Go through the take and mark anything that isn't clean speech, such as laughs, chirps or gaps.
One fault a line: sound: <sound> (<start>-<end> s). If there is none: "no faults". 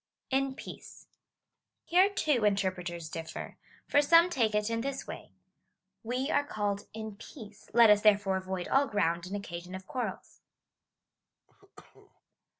sound: cough (11.5-12.2 s)